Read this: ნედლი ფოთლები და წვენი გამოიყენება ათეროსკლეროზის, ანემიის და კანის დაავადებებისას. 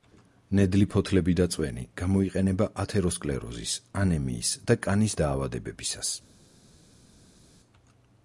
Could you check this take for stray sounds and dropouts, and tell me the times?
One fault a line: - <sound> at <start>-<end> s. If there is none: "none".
none